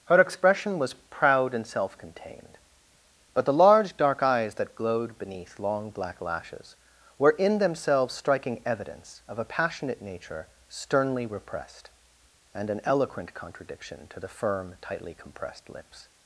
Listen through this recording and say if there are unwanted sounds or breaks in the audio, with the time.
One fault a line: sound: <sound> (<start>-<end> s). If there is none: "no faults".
no faults